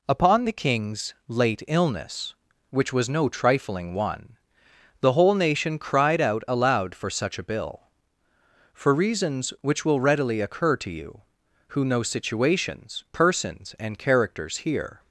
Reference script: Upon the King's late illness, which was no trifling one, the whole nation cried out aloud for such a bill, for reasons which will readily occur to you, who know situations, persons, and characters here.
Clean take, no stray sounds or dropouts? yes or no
yes